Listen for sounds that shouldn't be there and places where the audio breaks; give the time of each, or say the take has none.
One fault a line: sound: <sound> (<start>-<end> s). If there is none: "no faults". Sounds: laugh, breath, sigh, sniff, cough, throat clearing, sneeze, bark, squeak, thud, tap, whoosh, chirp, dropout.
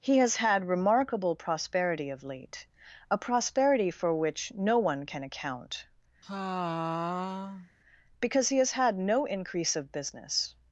sound: sigh (6.2-7.7 s)